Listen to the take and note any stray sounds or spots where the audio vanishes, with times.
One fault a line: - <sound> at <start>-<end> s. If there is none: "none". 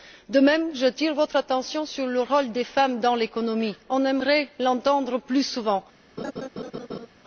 - laugh at 6.2-7.1 s